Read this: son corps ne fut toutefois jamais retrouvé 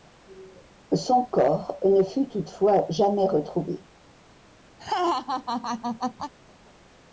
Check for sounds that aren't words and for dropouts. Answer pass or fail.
fail